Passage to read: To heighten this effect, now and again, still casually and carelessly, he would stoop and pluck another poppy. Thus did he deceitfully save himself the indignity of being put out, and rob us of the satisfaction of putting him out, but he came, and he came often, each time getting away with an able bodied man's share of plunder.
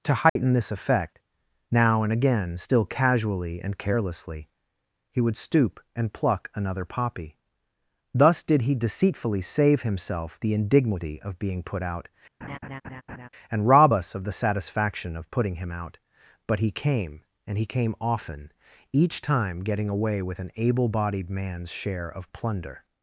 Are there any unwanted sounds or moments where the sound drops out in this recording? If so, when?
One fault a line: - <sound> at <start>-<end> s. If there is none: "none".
- dropout at 0.3-0.4 s
- laugh at 12.4-13.3 s